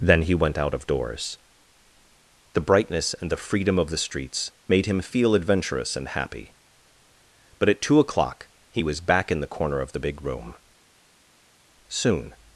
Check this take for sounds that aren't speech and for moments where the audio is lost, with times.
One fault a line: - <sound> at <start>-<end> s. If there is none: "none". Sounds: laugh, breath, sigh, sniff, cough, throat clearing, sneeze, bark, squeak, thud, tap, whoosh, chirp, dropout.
none